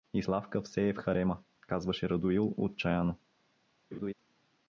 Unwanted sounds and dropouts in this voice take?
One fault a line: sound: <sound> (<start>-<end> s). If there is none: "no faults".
sound: laugh (3.9-4.1 s)